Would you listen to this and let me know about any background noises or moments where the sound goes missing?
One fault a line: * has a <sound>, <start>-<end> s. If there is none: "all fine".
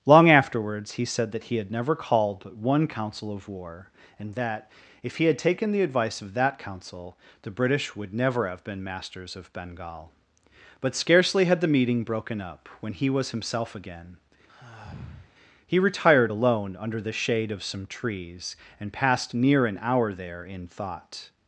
* has a sigh, 14.5-15.3 s